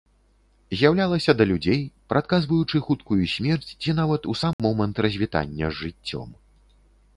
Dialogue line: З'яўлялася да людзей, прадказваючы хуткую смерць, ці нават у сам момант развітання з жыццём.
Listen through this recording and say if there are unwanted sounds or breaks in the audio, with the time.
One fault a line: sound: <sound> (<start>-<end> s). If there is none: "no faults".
sound: dropout (4.5-4.6 s)